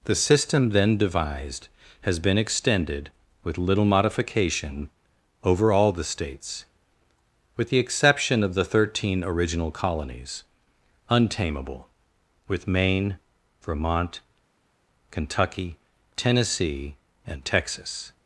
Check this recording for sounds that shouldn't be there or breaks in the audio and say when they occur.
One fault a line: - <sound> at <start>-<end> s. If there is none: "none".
none